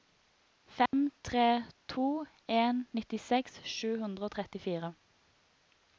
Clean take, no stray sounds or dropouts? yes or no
no